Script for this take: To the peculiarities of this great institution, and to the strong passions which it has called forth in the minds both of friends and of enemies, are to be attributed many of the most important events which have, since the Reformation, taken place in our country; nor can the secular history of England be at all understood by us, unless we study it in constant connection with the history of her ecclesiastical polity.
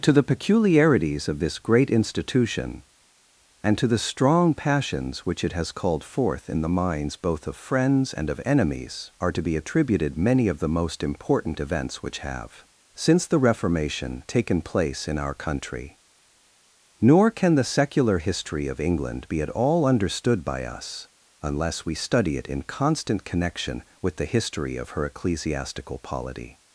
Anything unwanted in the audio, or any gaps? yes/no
no